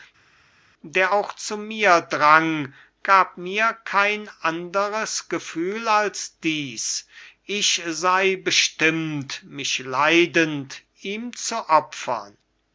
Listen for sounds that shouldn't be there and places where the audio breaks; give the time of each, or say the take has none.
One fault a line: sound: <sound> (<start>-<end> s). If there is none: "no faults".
no faults